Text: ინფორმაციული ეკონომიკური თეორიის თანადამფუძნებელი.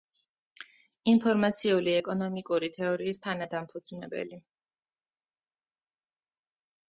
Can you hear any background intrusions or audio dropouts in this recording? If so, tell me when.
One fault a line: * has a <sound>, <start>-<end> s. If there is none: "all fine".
all fine